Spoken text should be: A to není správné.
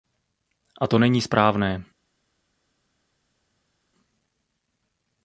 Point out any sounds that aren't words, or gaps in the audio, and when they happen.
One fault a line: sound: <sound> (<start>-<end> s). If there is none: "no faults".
no faults